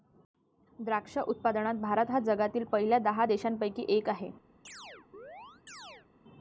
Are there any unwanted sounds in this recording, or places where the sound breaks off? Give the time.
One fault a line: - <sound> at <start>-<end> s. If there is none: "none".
- chirp at 4.6-6.1 s